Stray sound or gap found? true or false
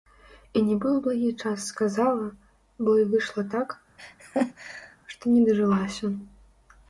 true